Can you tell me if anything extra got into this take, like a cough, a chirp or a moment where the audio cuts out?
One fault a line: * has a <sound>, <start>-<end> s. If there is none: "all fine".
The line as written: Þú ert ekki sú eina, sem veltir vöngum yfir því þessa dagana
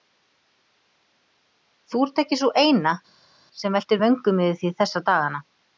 all fine